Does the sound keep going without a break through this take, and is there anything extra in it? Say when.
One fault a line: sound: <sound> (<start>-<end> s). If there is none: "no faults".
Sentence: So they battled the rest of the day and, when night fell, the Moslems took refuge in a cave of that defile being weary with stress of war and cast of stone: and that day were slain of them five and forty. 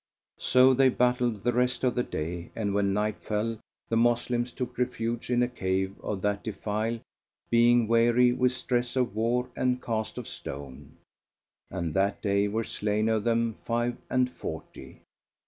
no faults